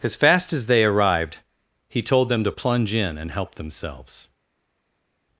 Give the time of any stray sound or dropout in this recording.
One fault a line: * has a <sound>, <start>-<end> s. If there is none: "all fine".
all fine